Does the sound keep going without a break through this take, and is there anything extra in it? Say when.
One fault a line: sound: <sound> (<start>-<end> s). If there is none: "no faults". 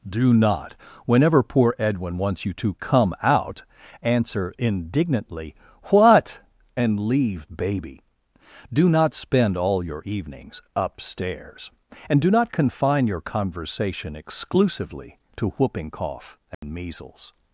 sound: dropout (16.5-16.6 s)